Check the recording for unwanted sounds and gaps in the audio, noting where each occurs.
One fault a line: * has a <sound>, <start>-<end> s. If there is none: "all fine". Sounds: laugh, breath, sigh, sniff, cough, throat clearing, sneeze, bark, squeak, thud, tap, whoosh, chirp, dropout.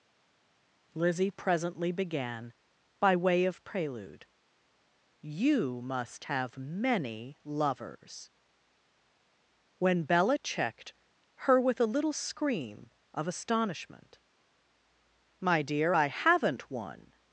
all fine